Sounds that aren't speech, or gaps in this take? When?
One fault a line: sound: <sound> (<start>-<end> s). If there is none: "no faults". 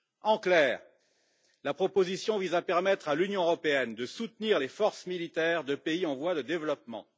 no faults